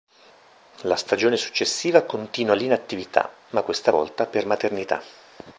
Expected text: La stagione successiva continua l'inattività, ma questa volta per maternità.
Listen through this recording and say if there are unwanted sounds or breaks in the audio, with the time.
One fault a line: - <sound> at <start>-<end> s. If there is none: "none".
none